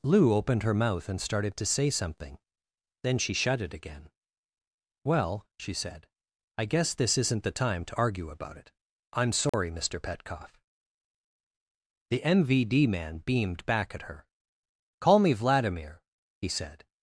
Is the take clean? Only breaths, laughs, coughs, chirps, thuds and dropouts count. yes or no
no